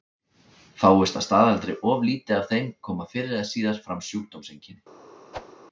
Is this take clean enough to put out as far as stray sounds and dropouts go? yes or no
no